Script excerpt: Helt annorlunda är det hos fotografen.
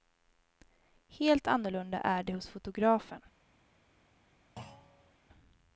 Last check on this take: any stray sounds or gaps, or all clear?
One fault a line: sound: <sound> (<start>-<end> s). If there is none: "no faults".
sound: thud (4.6-5.1 s)